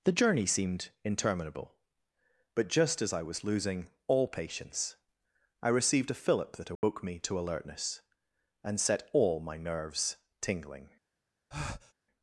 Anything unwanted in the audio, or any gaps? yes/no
yes